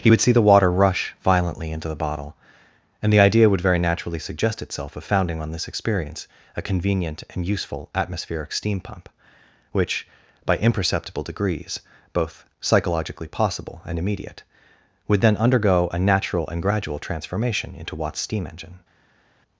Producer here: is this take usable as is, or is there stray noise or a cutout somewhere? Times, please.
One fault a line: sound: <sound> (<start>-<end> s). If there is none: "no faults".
no faults